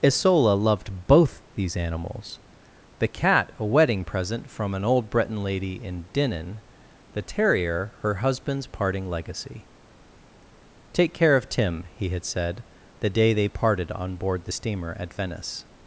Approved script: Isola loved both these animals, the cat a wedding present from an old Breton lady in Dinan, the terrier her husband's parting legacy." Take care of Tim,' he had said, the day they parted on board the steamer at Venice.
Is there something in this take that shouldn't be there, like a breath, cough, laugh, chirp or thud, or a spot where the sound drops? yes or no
no